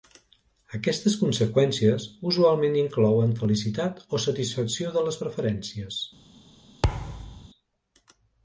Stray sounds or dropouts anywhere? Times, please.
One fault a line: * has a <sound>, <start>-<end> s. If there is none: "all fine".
* has a thud, 6.8-7.5 s